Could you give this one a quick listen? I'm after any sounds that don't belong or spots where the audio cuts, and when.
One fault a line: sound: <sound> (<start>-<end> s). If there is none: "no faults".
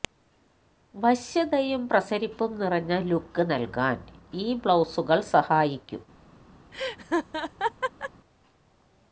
sound: laugh (6.7-8.1 s)